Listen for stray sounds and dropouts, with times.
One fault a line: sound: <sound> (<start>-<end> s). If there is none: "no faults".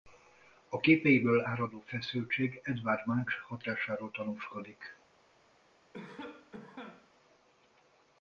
sound: cough (5.9-7.1 s)